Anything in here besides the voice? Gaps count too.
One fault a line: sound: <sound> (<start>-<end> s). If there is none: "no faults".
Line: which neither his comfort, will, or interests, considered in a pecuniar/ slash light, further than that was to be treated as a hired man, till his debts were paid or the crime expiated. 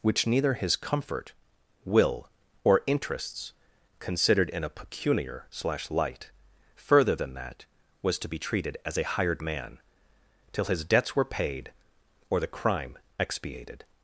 no faults